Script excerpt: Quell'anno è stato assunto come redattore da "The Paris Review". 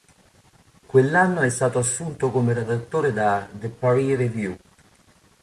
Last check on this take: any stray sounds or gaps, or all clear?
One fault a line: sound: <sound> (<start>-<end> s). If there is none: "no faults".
no faults